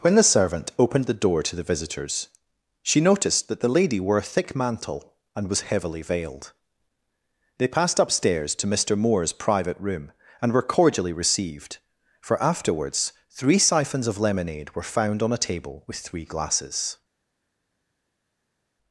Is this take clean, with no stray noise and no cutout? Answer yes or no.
yes